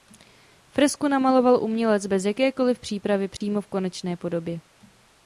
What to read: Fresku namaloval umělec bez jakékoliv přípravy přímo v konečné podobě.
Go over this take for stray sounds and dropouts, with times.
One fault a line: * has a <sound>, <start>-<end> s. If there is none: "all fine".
* has a dropout, 3.4-3.4 s